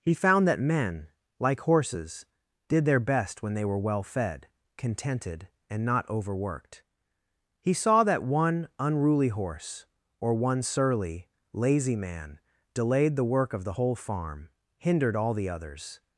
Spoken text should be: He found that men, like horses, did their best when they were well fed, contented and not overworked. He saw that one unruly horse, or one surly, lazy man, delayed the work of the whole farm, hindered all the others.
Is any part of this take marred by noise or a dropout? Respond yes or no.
no